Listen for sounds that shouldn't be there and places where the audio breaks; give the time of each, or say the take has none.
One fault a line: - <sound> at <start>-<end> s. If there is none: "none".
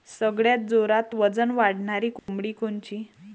- dropout at 2.2-2.3 s